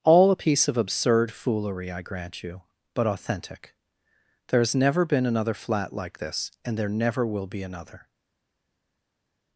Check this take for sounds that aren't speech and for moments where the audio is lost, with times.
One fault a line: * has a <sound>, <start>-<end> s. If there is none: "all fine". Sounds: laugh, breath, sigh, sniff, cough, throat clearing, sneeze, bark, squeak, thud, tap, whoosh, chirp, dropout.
all fine